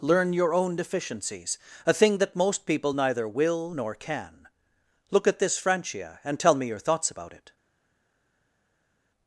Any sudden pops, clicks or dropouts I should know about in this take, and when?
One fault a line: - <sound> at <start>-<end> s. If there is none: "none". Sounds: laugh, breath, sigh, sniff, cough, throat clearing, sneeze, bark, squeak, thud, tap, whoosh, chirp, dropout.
none